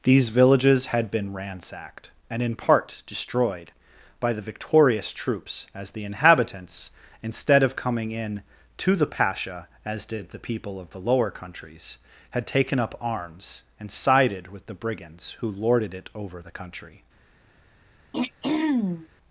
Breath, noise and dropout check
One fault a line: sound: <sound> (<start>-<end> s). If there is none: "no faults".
sound: throat clearing (18.1-19.1 s)